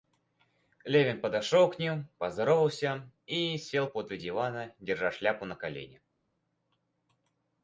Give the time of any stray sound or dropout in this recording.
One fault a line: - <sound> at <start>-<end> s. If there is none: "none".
none